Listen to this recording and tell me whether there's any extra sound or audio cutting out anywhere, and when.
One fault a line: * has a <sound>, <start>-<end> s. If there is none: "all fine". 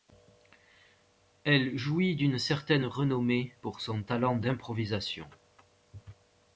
all fine